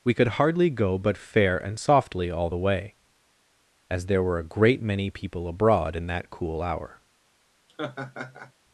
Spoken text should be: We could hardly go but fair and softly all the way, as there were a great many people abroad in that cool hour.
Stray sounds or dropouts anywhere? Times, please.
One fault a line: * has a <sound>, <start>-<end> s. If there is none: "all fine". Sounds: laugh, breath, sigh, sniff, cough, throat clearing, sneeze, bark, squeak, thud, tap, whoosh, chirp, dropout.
* has a laugh, 7.7-8.5 s